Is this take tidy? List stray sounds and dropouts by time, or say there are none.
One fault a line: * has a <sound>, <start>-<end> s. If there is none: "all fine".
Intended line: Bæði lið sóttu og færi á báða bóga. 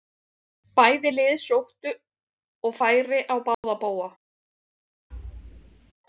* has a dropout, 3.5-3.6 s
* has a thud, 5.1-5.9 s